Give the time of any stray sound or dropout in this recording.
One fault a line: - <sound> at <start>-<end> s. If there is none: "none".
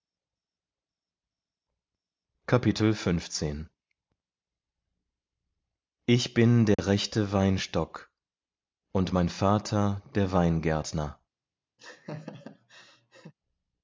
- dropout at 6.7-6.8 s
- laugh at 11.8-13.3 s